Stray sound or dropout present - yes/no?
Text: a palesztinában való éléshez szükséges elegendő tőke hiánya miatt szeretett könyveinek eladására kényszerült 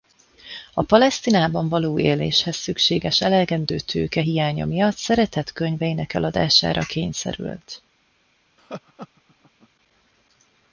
yes